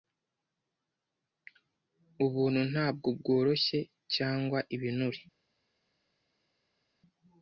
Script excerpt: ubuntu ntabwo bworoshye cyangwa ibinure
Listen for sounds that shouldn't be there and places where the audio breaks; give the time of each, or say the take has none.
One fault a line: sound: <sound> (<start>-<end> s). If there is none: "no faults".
no faults